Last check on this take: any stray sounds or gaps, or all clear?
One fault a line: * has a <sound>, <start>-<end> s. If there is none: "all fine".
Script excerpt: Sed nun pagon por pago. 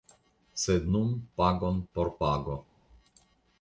all fine